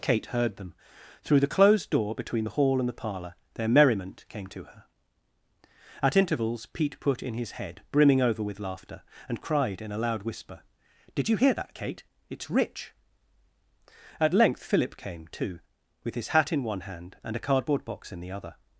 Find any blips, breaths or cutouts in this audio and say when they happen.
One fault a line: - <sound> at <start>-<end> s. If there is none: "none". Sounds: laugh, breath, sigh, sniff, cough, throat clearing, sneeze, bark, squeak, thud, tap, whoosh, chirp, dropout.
none